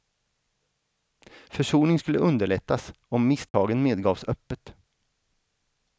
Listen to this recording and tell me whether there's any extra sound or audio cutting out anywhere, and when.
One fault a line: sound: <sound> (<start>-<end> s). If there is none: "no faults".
sound: dropout (3.5-3.5 s)